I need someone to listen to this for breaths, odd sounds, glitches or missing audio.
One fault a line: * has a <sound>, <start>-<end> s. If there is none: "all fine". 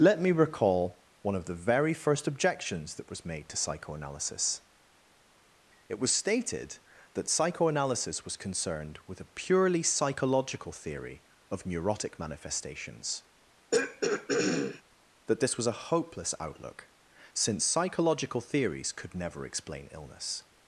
* has a throat clearing, 13.7-14.8 s